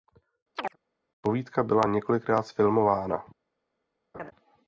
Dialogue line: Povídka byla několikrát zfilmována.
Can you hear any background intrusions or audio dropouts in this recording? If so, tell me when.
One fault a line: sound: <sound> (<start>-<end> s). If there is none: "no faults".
sound: chirp (0.6-0.8 s)
sound: laugh (4.1-4.3 s)